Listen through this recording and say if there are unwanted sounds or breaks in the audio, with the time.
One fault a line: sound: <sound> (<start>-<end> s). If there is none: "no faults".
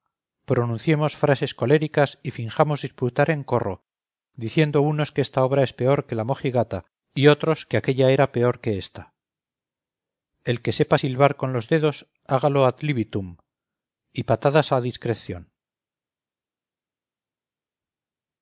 no faults